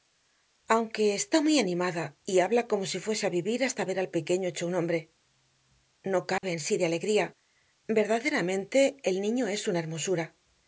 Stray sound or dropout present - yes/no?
yes